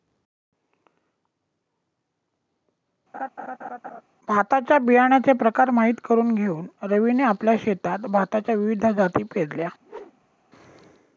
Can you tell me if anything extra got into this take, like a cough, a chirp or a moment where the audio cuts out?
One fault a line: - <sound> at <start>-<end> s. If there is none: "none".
- laugh at 3.1-4.0 s
- whoosh at 9.8-10.5 s